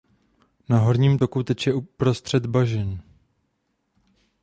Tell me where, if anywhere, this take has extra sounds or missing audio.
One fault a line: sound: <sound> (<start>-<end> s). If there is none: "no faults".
no faults